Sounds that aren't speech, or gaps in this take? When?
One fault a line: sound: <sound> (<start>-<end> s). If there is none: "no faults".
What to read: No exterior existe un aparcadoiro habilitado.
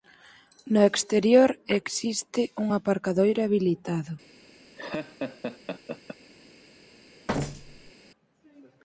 sound: laugh (4.8-6.2 s)
sound: thud (7.3-7.9 s)